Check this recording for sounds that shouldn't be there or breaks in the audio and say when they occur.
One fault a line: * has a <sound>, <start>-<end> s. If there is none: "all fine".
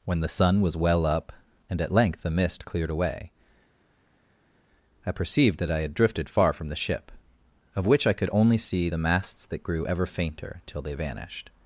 all fine